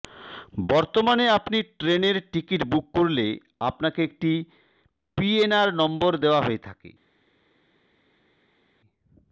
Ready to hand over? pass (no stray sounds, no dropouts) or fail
pass